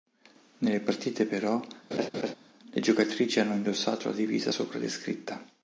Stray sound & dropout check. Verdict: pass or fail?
fail